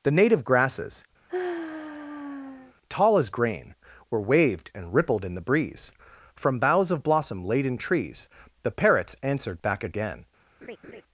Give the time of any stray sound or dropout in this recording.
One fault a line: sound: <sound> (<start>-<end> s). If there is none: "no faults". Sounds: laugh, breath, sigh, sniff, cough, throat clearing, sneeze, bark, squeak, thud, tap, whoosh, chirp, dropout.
sound: sigh (1.3-2.7 s)
sound: laugh (10.6-11.0 s)